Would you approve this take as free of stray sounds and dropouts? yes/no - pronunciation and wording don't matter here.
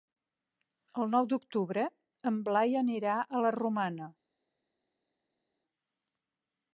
yes